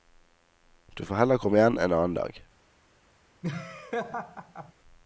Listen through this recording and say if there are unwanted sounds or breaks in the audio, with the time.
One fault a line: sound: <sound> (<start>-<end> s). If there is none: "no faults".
sound: laugh (3.4-4.7 s)